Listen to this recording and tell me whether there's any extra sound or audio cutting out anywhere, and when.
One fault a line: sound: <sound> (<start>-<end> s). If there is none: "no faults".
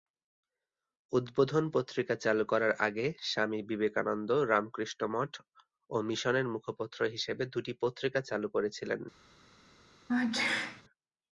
sound: sneeze (10.1-10.8 s)